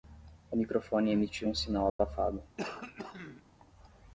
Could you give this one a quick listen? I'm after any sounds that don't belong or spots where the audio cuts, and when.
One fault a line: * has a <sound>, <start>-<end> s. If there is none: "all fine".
* has a dropout, 1.9-2.0 s
* has a throat clearing, 2.6-3.4 s